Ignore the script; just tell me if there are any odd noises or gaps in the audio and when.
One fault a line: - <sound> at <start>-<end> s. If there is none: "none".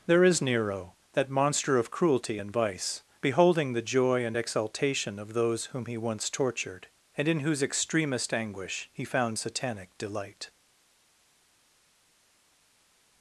none